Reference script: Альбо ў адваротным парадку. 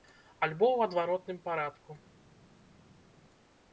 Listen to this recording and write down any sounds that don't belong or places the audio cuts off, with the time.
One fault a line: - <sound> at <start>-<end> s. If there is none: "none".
none